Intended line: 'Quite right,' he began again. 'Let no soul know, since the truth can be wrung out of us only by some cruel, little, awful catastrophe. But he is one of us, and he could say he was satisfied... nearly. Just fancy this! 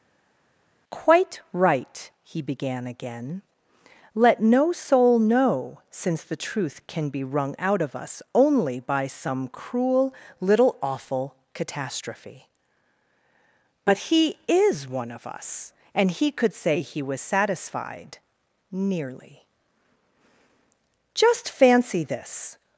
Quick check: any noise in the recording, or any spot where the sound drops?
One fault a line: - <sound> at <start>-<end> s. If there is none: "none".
none